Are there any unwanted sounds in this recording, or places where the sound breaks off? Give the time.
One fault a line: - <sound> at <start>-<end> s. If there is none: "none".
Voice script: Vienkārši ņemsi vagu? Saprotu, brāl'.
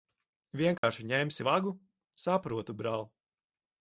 - dropout at 0.8-0.8 s